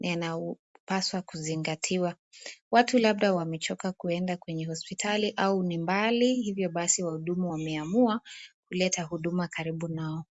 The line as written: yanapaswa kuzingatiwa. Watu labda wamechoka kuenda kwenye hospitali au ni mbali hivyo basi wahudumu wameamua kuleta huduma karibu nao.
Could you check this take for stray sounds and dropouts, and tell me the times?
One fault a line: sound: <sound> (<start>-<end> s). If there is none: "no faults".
no faults